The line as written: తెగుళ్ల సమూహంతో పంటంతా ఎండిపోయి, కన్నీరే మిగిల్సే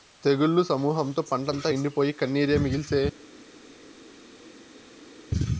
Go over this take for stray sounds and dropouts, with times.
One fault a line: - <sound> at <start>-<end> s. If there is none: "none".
none